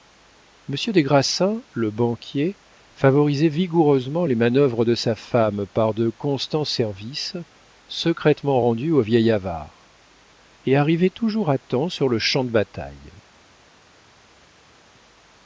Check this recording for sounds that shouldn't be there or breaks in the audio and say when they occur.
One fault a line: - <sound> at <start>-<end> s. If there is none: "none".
none